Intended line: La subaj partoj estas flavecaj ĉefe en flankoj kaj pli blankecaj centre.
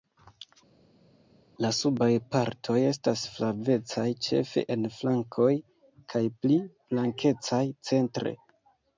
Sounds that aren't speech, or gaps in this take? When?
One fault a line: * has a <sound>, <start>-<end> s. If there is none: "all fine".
all fine